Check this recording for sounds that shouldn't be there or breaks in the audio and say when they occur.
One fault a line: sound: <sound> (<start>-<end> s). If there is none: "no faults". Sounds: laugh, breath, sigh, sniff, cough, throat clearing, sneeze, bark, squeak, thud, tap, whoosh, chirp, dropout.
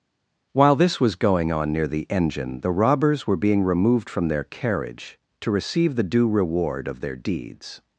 no faults